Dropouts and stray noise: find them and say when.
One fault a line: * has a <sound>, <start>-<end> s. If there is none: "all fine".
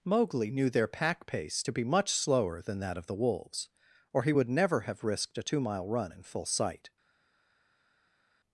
all fine